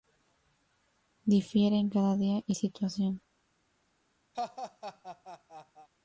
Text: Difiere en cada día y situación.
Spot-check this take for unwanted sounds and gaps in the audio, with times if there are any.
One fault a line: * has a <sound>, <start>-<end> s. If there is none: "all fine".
* has a laugh, 4.3-5.9 s